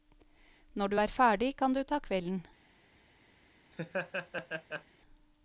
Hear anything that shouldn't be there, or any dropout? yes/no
yes